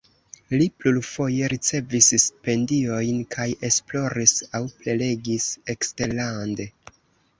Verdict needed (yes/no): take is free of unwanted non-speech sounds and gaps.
yes